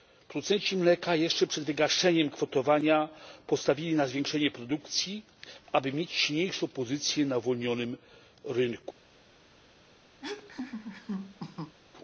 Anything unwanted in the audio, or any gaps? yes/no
yes